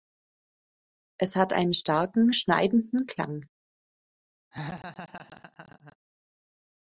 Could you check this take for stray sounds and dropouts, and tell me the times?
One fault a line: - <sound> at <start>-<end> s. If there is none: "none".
- laugh at 4.5-6.0 s